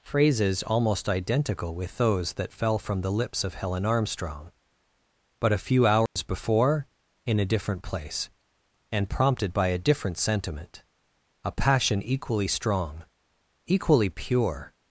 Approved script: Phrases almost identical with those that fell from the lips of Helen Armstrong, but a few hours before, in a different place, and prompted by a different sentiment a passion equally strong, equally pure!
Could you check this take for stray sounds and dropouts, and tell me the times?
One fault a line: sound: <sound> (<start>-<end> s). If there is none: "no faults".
sound: dropout (6.1-6.2 s)